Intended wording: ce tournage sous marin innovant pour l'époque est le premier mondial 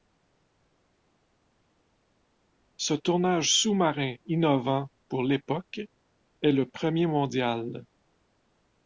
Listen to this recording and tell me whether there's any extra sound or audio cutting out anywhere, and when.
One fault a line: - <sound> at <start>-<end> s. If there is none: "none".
none